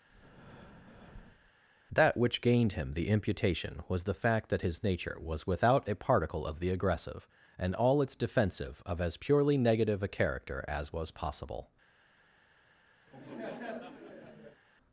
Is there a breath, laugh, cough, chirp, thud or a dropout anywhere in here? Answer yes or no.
yes